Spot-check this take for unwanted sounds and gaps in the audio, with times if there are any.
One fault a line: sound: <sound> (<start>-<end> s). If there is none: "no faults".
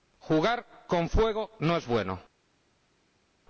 no faults